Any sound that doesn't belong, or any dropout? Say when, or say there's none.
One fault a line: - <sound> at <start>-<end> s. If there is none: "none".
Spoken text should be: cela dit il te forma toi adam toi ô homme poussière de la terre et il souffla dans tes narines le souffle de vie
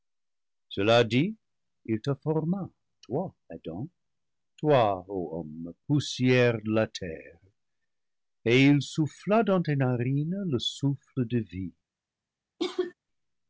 - cough at 12.6-12.9 s